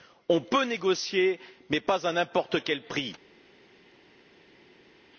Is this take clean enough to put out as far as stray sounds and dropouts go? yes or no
yes